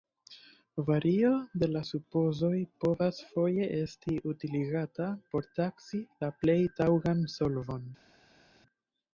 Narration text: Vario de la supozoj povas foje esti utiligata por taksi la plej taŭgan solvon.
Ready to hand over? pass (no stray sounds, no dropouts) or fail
pass